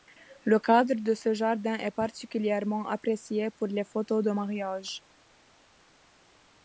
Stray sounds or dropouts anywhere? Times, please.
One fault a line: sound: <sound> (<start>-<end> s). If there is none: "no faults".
no faults